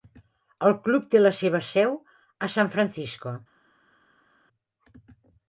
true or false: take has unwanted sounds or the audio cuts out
false